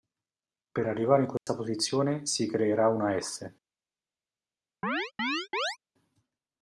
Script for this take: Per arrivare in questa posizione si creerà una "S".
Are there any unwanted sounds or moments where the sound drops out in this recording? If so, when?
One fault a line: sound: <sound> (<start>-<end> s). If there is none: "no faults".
sound: dropout (1.4-1.5 s)
sound: chirp (4.8-5.8 s)